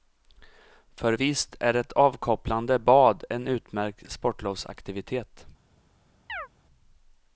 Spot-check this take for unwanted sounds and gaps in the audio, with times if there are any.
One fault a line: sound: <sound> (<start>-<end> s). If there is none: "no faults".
sound: chirp (6.3-6.5 s)